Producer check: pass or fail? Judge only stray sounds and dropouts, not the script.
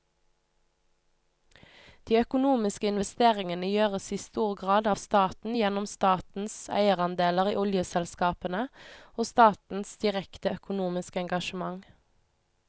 pass